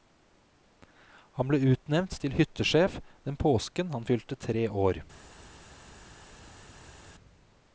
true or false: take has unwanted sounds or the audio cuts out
false